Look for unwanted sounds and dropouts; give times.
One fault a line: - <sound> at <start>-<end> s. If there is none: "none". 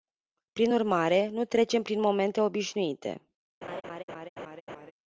- laugh at 3.6-4.9 s